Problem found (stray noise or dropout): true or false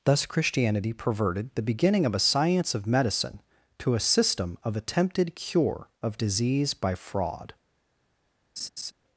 true